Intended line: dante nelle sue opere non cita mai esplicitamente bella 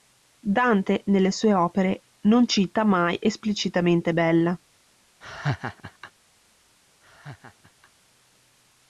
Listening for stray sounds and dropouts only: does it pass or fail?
fail